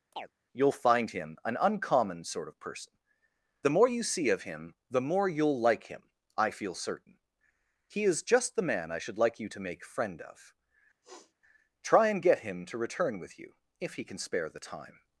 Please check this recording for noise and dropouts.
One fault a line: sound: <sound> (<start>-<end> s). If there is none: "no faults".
sound: chirp (0.1-0.3 s)
sound: sniff (11.0-11.3 s)